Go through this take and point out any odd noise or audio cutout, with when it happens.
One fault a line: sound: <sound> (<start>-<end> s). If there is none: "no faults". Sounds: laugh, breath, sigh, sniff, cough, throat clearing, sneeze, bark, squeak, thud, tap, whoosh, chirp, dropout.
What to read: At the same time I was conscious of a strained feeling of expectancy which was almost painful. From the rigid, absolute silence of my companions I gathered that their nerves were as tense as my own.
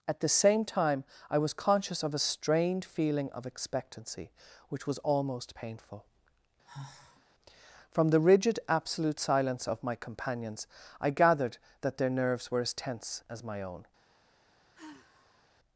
sound: sigh (6.6-7.2 s)
sound: sigh (14.7-15.5 s)